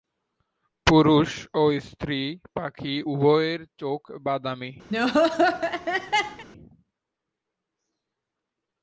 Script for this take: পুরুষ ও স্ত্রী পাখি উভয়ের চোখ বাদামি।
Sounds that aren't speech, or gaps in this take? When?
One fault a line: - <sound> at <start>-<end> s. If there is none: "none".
- laugh at 4.9-6.4 s